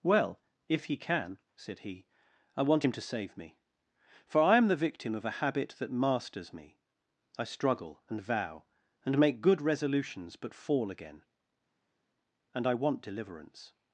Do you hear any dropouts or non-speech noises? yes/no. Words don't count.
no